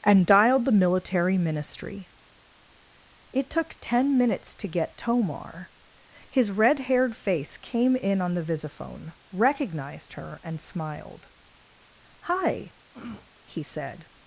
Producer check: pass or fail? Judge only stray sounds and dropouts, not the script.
fail